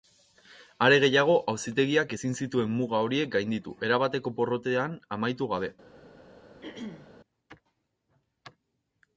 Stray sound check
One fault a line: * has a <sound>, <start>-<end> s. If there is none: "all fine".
* has a throat clearing, 6.6-7.1 s